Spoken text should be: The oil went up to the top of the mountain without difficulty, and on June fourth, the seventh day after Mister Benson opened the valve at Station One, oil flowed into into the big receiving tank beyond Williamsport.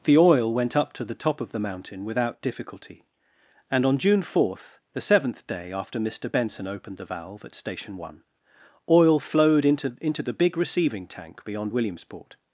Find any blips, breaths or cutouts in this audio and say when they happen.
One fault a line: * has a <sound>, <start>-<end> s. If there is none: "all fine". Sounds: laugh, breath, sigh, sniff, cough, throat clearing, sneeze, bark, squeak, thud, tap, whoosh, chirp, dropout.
all fine